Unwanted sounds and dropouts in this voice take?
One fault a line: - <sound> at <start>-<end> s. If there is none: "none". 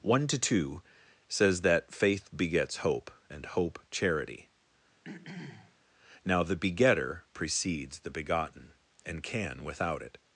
- throat clearing at 5.0-5.8 s